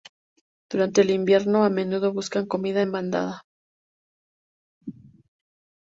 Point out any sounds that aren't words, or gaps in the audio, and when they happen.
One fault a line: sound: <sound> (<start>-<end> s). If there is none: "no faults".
no faults